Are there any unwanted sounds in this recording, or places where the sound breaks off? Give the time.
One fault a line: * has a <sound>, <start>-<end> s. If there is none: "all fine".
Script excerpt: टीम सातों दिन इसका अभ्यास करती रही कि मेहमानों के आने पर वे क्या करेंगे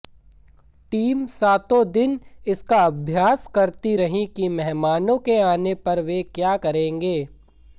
all fine